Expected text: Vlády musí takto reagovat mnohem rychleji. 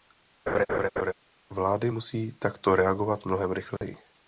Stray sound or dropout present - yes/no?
yes